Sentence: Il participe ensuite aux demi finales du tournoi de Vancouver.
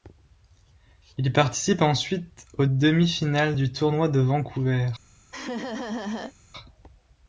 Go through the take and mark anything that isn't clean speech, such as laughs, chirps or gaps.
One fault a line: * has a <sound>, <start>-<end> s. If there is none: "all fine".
* has a laugh, 5.3-6.3 s